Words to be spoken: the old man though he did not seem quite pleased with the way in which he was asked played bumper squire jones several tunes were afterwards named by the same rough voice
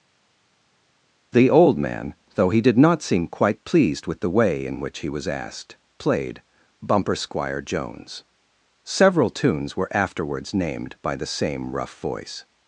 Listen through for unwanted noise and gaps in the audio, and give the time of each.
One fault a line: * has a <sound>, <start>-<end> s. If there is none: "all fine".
all fine